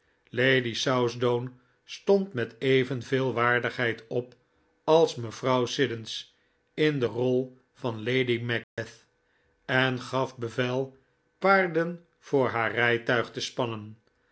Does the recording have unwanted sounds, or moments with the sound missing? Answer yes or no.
yes